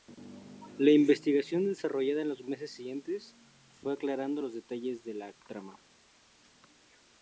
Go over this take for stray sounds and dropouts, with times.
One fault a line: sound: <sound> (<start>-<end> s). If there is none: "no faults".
no faults